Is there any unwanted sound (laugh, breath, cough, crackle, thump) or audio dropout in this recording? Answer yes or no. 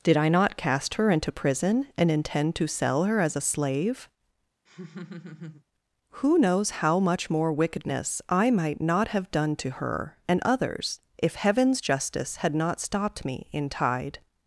yes